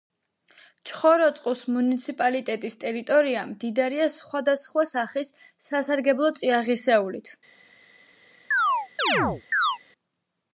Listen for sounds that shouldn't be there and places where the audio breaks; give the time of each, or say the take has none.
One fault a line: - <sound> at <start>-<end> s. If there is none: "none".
- chirp at 8.5-9.8 s